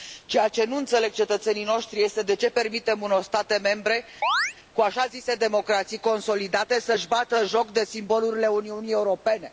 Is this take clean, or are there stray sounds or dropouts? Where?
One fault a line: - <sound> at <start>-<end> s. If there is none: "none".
- chirp at 4.2-4.5 s